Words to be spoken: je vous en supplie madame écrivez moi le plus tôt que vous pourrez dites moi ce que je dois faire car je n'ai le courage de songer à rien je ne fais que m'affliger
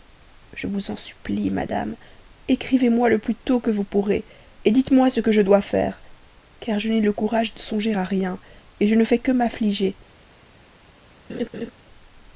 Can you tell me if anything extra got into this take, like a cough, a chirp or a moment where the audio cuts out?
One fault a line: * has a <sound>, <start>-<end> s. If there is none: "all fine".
* has a laugh, 11.3-11.7 s